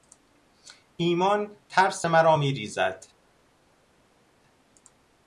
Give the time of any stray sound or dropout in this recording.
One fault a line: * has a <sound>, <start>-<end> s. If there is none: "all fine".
all fine